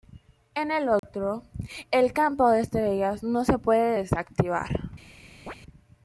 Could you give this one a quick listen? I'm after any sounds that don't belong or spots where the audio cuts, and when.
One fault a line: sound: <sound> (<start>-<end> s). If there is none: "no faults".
sound: dropout (1.0-1.0 s)
sound: chirp (5.5-5.6 s)